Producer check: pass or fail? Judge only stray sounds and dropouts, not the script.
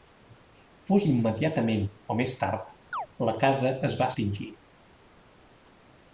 fail